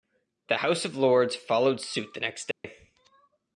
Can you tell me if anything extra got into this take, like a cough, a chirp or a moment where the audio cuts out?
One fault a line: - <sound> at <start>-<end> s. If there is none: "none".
- dropout at 2.5-2.6 s